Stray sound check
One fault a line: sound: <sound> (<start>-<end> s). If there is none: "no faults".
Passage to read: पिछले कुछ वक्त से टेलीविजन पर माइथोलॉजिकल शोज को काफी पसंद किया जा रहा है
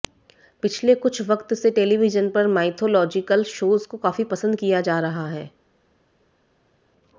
no faults